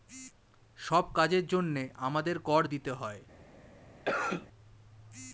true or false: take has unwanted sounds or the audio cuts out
true